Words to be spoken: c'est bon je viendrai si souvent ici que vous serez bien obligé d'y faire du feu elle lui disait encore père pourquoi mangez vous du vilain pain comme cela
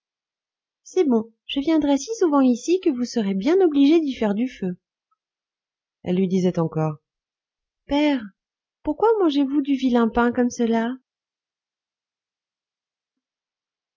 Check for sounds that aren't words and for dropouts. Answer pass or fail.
pass